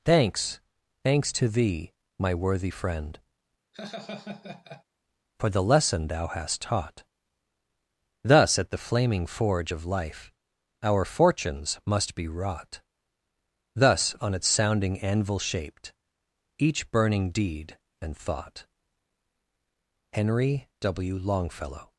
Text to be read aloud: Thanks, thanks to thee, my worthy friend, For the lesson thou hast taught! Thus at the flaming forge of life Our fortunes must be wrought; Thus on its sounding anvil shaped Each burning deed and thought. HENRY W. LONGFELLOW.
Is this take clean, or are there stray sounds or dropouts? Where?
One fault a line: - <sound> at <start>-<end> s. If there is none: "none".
- laugh at 3.7-4.8 s